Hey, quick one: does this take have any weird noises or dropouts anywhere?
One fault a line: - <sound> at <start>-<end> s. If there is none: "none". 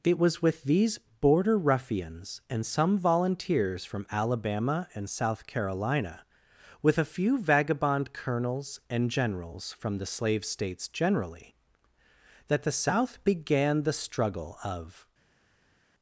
none